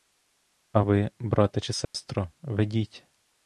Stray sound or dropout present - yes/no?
yes